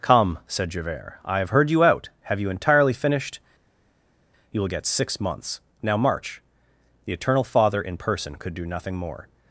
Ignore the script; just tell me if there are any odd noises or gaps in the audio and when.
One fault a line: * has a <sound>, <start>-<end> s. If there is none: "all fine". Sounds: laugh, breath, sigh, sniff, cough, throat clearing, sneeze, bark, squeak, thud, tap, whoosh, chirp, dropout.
all fine